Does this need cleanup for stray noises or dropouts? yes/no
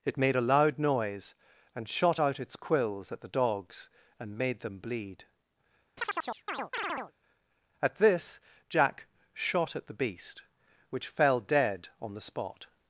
yes